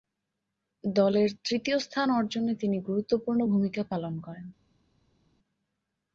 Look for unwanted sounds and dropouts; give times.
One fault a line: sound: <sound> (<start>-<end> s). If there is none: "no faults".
no faults